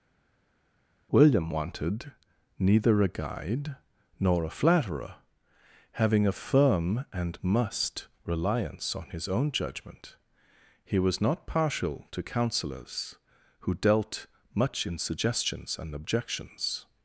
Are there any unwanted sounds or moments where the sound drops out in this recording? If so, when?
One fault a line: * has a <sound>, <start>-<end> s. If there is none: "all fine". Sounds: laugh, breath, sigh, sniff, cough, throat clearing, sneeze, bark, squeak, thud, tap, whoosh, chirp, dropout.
all fine